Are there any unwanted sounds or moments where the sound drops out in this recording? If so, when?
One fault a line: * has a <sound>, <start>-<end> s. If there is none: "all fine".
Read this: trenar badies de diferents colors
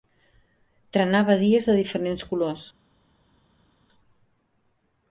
all fine